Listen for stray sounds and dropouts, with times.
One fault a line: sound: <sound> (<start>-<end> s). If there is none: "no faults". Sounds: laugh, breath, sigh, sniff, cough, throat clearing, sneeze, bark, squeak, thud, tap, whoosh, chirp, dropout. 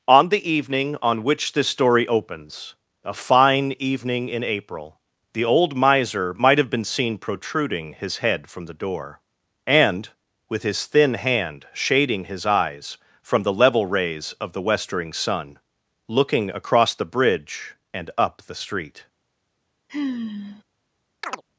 sound: sigh (19.9-20.6 s)
sound: chirp (21.2-21.4 s)